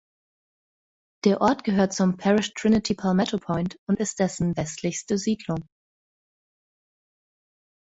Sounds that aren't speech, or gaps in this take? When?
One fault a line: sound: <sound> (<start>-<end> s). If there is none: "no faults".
no faults